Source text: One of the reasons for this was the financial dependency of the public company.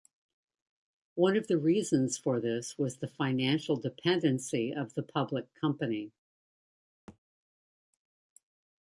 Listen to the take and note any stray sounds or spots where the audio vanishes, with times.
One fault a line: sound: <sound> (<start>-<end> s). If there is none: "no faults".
sound: thud (7.1-7.2 s)